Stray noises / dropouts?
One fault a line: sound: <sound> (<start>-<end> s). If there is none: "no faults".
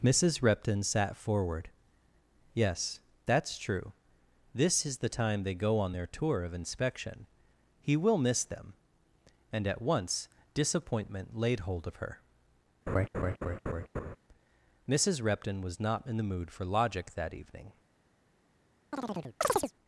sound: laugh (12.9-14.2 s)
sound: chirp (18.9-19.7 s)